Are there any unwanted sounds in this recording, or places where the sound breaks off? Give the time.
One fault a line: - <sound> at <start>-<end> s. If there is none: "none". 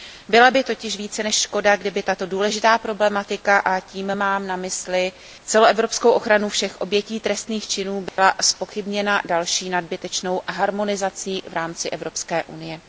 - dropout at 8.1-8.2 s